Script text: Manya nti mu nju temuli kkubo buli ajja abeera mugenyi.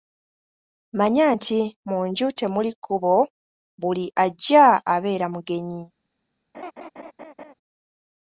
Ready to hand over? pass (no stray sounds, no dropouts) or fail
fail